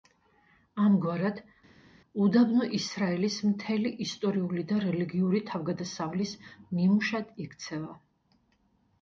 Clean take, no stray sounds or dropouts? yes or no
yes